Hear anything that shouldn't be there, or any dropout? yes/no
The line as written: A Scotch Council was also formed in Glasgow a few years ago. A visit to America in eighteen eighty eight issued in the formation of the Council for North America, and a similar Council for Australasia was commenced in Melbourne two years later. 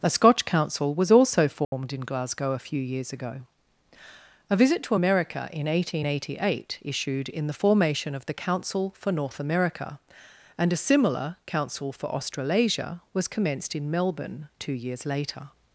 yes